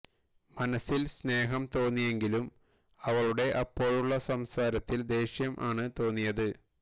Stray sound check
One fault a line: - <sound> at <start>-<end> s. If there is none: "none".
none